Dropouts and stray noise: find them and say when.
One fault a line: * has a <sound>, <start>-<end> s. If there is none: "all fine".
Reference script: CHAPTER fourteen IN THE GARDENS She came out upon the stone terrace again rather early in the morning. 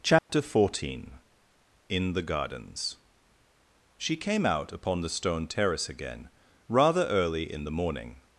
* has a dropout, 0.2-0.3 s